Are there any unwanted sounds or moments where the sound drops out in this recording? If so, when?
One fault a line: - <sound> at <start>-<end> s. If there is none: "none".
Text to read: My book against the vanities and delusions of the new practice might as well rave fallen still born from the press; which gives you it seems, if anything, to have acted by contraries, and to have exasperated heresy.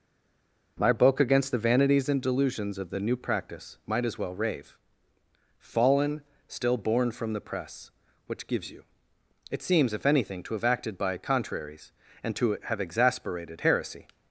none